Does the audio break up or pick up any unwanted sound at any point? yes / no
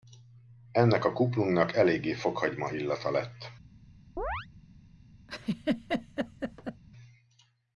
yes